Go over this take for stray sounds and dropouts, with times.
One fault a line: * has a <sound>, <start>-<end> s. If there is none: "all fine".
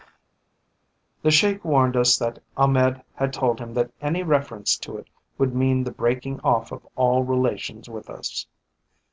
all fine